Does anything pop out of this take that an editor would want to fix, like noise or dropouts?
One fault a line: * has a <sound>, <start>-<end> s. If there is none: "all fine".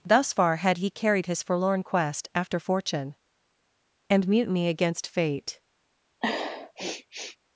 * has a sniff, 6.2-7.4 s